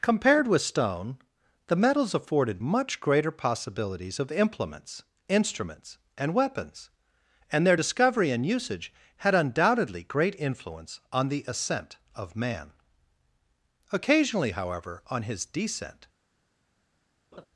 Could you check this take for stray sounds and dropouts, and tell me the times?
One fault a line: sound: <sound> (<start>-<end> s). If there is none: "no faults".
sound: laugh (17.3-17.5 s)